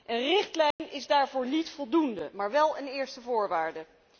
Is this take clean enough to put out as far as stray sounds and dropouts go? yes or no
no